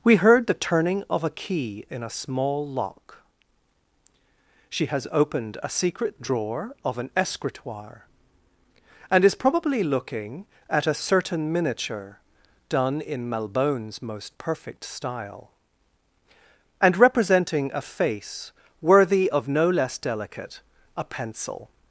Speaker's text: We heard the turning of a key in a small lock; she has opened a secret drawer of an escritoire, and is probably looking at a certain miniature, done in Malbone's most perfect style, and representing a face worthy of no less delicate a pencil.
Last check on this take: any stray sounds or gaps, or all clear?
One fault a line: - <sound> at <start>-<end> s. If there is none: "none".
none